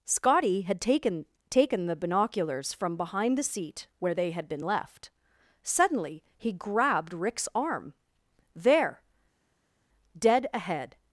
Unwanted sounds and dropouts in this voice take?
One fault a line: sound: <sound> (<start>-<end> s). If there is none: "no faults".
no faults